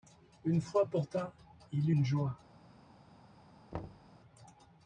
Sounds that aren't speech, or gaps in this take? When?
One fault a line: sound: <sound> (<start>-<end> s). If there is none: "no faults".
sound: thud (3.7-4.1 s)